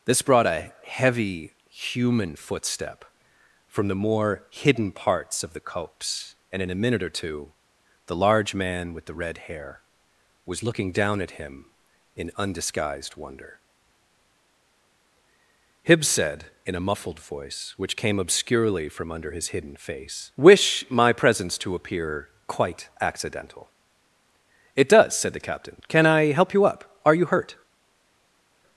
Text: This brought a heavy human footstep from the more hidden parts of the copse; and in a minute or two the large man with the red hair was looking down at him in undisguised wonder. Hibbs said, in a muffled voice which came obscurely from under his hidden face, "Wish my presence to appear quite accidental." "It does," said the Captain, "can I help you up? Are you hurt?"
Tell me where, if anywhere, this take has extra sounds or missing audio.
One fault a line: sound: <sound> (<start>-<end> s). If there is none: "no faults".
no faults